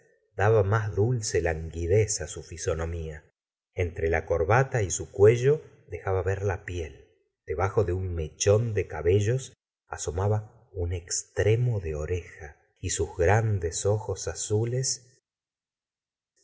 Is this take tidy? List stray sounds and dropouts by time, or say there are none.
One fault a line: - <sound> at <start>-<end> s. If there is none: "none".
none